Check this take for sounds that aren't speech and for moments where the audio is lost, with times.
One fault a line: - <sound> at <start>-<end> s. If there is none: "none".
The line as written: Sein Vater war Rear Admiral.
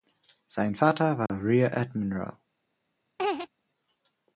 - dropout at 1.3-1.3 s
- laugh at 3.2-3.5 s